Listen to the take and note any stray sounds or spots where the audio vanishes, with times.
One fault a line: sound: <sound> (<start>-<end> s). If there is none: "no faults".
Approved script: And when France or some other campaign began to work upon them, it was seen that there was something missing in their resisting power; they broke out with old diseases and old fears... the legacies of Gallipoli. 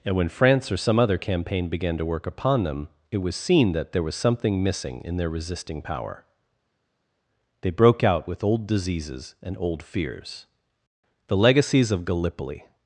no faults